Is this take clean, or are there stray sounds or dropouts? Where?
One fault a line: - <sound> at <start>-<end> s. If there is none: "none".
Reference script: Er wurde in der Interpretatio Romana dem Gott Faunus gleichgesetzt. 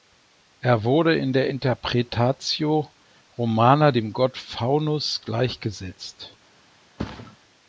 - thud at 7.0-7.4 s